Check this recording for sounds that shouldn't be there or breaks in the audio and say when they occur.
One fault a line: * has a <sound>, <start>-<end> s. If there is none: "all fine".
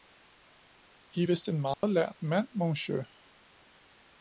* has a dropout, 1.7-1.8 s